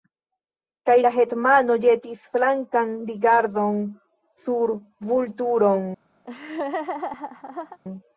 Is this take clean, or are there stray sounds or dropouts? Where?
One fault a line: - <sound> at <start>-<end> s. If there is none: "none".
- laugh at 6.2-7.8 s